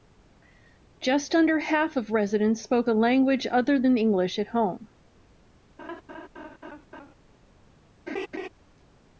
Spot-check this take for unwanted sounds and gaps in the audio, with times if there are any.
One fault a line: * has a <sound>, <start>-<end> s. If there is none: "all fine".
* has a laugh, 5.8-7.1 s
* has a laugh, 8.1-8.5 s